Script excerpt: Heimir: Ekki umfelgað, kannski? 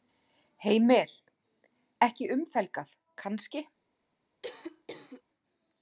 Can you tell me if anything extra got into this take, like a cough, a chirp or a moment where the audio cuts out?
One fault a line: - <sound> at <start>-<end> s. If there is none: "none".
- cough at 4.4-5.2 s